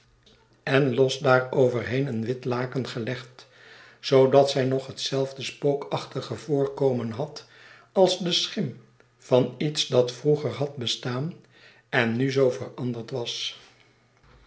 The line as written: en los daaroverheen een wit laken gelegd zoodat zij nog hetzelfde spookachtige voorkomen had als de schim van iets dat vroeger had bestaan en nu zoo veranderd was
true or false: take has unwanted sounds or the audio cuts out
false